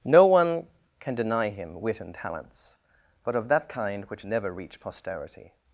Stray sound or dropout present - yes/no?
no